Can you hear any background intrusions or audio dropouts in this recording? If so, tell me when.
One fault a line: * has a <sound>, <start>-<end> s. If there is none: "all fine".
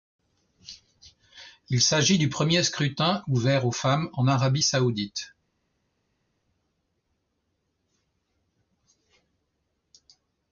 all fine